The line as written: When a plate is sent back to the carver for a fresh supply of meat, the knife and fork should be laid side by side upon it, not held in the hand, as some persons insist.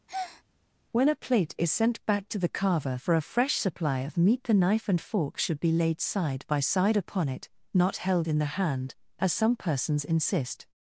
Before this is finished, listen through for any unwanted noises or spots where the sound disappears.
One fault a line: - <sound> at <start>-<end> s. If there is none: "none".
- breath at 0.1-0.4 s